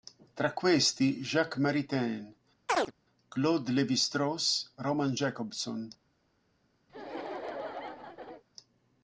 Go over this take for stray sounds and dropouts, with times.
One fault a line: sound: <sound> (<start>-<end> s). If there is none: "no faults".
sound: chirp (2.7-2.9 s)
sound: laugh (6.9-8.4 s)